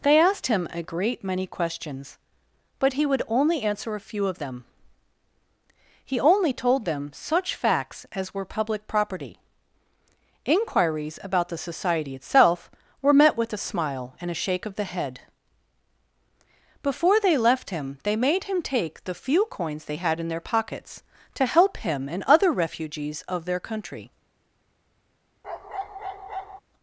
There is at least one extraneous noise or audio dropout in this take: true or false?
true